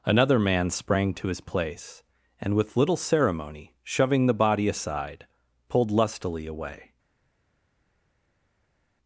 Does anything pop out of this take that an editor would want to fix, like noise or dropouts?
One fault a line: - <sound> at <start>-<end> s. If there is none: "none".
none